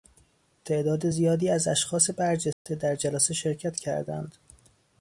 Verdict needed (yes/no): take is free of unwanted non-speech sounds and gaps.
no